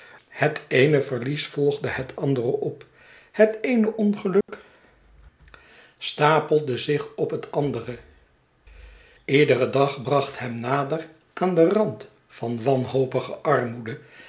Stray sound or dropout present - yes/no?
yes